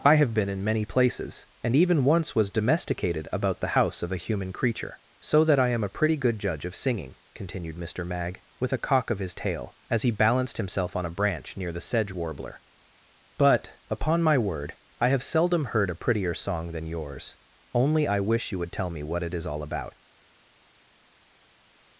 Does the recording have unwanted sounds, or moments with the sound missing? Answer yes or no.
no